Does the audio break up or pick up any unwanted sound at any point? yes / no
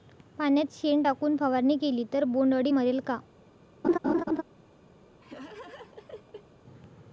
yes